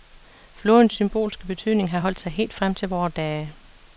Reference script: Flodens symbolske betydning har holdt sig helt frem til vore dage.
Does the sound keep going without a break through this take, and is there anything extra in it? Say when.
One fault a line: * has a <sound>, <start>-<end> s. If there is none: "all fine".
all fine